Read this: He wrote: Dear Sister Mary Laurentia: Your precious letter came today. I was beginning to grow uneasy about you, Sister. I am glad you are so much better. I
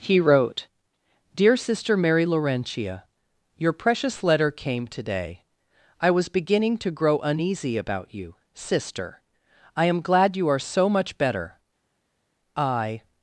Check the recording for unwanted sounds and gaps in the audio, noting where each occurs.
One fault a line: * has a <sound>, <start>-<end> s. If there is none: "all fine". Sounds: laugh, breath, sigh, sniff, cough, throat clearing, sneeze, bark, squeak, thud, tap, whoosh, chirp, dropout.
all fine